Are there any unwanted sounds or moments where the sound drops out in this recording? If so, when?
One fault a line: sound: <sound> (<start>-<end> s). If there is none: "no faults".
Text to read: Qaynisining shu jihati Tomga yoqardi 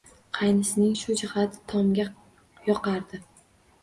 no faults